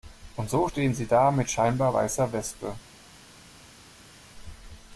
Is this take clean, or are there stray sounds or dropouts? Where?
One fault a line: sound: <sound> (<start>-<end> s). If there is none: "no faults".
no faults